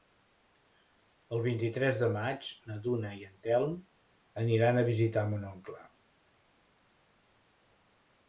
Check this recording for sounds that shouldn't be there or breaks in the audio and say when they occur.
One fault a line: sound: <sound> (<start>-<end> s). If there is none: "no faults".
no faults